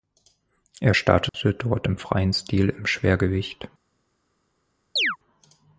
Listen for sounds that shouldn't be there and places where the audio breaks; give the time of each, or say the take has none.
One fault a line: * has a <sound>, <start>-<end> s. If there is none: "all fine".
* has a dropout, 1.3-1.3 s
* has a chirp, 5.0-5.2 s